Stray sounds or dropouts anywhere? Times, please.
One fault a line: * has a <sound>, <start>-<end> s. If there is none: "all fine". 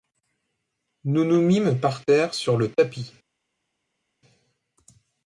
all fine